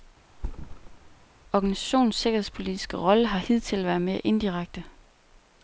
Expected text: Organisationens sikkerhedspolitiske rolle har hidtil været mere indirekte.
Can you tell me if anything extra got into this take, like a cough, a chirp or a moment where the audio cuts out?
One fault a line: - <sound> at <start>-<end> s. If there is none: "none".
- thud at 0.3-1.3 s